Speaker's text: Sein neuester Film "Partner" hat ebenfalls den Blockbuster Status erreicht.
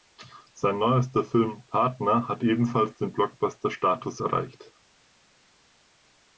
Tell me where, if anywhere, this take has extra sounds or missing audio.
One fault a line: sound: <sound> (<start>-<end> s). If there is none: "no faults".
no faults